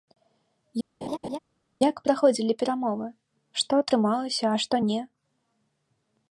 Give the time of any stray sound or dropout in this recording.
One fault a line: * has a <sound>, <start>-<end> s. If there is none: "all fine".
* has a laugh, 1.0-1.4 s